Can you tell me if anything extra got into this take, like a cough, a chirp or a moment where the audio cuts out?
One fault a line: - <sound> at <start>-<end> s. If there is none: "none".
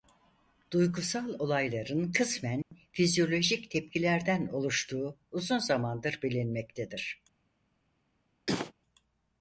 - dropout at 2.6-2.7 s
- cough at 8.5-8.7 s